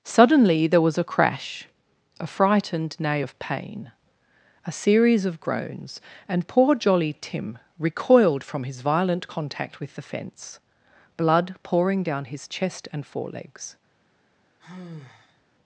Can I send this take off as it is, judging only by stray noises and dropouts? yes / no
no